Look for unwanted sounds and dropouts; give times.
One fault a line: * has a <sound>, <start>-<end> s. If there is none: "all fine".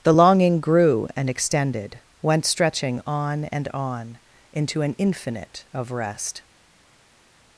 all fine